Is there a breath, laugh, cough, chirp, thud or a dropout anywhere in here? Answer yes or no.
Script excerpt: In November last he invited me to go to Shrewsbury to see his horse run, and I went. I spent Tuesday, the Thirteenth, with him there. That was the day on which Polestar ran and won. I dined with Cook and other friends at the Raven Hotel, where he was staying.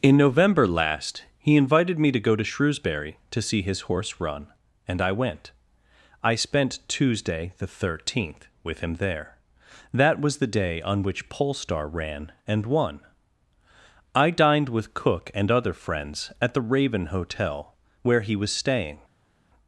no